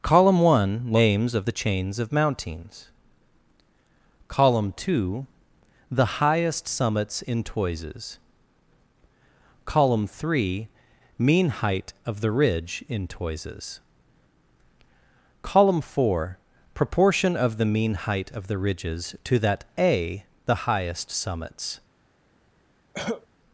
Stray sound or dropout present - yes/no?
yes